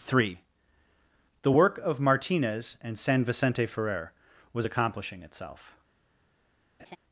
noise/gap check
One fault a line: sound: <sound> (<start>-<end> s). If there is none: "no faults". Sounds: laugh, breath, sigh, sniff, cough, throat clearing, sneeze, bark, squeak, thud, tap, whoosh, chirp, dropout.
sound: laugh (6.8-7.0 s)